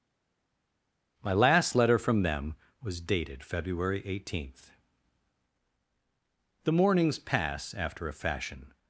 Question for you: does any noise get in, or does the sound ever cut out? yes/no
no